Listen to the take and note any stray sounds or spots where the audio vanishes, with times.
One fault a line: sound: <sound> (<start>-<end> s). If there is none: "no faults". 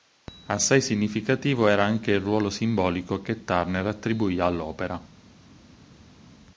no faults